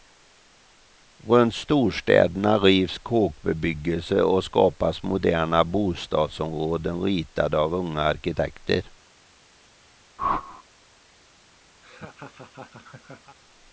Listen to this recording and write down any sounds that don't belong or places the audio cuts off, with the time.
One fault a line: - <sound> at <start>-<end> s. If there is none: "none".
- whoosh at 10.2-10.6 s
- laugh at 11.8-13.4 s